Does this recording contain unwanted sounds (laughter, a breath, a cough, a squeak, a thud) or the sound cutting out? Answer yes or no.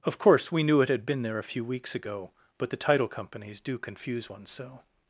no